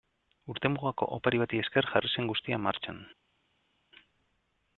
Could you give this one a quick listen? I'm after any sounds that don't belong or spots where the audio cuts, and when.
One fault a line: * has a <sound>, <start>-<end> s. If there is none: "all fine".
all fine